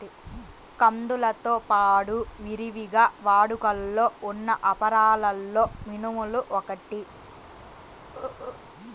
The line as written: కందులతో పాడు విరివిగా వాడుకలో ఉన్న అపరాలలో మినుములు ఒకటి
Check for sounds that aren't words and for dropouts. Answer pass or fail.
fail